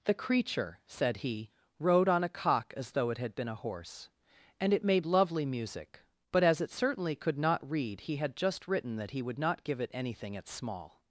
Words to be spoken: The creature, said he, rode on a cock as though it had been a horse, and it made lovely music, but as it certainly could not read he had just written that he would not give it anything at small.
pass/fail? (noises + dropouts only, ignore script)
pass